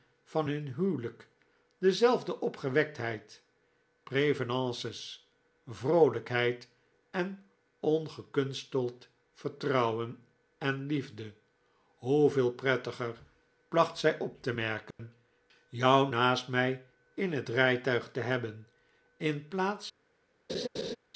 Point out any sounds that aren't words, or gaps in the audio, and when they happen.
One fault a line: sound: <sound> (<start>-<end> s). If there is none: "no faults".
sound: dropout (14.9-15.0 s)
sound: laugh (20.5-21.0 s)